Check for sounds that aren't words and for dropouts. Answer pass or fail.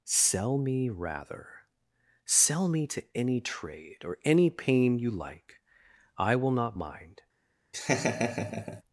fail